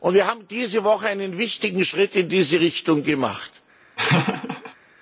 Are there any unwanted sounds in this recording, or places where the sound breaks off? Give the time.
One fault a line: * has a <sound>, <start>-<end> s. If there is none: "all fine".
* has a laugh, 4.0-4.8 s